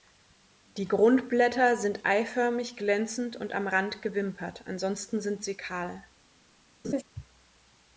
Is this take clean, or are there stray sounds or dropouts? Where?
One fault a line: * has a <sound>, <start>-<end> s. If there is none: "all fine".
* has a laugh, 6.8-7.0 s